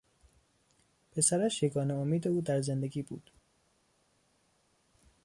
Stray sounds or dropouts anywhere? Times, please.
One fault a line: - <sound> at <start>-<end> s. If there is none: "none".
none